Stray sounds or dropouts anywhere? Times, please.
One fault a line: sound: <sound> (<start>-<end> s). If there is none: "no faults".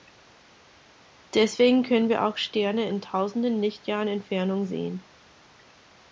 no faults